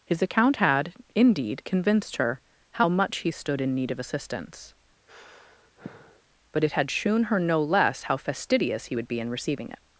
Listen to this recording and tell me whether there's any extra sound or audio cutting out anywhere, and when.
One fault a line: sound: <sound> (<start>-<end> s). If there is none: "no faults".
sound: sigh (5.1-6.2 s)